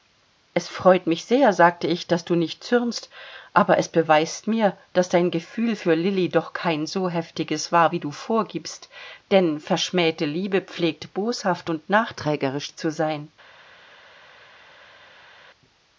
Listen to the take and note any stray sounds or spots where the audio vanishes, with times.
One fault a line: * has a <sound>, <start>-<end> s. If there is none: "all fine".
all fine